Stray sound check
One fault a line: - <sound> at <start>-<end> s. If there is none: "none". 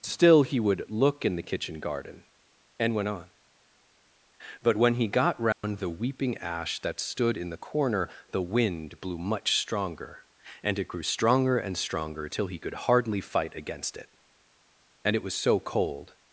- dropout at 5.5-5.6 s